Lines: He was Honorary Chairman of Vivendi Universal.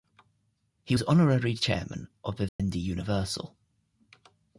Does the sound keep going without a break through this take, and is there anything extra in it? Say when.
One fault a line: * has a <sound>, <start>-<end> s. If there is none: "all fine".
* has a dropout, 2.5-2.6 s